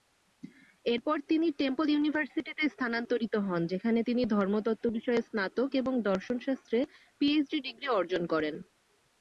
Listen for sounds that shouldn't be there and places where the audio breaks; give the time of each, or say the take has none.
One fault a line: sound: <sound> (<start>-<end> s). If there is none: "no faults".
no faults